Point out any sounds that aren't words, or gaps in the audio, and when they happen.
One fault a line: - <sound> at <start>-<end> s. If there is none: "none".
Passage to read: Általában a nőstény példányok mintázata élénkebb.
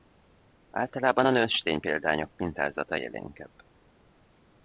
none